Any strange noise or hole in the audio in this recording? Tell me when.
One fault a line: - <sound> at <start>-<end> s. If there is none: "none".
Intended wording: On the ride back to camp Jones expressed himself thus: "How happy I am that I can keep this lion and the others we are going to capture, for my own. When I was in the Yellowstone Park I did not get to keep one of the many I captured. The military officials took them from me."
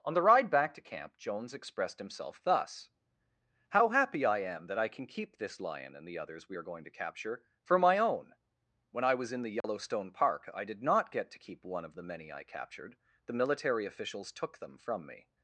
- dropout at 9.6-9.6 s